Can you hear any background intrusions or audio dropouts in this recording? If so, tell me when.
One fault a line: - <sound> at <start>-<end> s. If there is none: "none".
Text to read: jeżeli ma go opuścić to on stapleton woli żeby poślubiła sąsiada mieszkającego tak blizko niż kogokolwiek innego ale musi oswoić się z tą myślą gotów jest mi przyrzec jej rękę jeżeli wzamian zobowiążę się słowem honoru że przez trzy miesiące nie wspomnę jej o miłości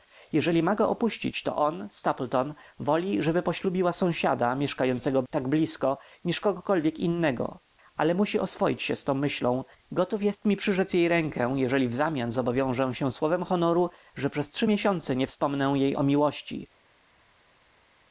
none